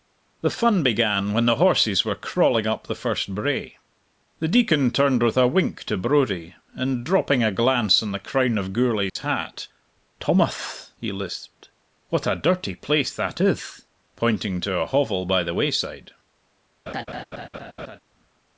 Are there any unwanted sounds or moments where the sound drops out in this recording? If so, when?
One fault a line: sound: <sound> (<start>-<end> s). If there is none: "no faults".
sound: dropout (9.1-9.2 s)
sound: laugh (16.9-18.0 s)